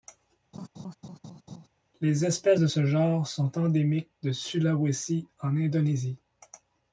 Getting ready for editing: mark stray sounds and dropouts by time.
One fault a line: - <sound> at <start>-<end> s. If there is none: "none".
- laugh at 0.5-1.7 s